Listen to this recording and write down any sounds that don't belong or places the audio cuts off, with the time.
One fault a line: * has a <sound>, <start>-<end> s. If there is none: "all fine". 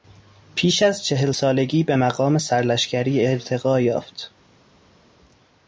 all fine